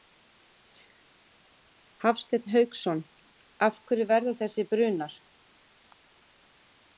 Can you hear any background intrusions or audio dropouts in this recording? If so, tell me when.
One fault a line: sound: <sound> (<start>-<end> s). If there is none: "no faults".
no faults